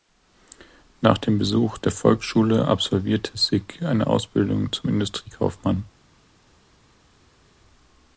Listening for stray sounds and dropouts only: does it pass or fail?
pass